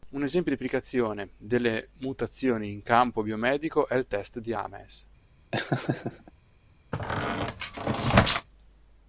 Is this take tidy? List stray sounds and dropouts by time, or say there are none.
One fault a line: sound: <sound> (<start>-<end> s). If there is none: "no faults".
sound: laugh (5.5-6.3 s)
sound: squeak (6.9-8.5 s)